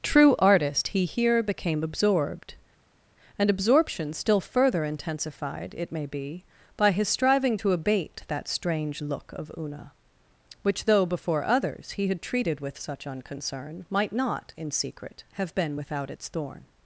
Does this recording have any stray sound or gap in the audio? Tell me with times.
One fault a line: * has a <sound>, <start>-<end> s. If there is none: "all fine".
all fine